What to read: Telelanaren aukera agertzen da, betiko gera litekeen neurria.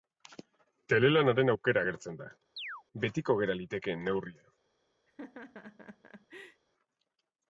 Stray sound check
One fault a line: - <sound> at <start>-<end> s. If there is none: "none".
- chirp at 2.6-2.8 s
- laugh at 5.1-6.6 s